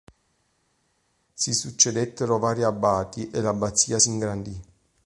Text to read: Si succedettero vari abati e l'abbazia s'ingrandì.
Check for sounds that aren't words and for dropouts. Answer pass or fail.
pass